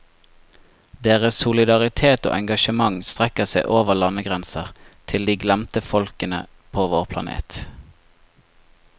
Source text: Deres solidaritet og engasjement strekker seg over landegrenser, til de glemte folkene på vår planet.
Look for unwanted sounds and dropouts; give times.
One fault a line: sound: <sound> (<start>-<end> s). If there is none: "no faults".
no faults